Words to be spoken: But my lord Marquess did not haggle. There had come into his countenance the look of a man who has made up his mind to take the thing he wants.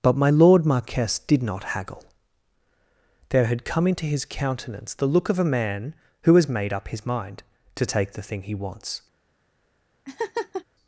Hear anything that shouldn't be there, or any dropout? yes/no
yes